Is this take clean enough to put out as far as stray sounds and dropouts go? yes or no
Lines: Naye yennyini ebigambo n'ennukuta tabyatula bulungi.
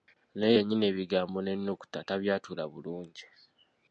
yes